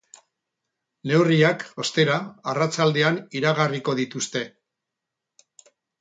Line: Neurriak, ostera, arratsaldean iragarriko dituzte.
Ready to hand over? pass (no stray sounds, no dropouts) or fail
pass